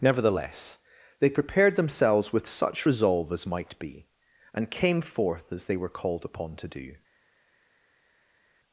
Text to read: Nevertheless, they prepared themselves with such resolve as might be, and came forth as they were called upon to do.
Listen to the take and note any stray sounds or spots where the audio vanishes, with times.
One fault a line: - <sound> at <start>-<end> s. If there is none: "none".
none